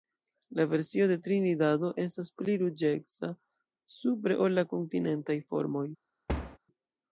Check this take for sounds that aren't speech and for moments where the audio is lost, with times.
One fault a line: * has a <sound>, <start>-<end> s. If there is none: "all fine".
* has a thud, 6.3-6.6 s